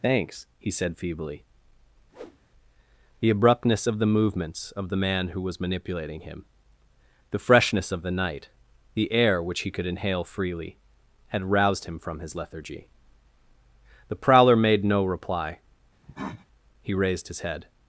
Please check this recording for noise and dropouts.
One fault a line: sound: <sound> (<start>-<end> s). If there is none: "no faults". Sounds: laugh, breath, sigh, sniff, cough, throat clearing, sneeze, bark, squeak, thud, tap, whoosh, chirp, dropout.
sound: whoosh (2.1-2.4 s)
sound: cough (16.0-16.5 s)